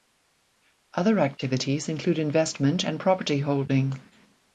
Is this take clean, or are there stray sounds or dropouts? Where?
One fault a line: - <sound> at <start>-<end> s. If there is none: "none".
none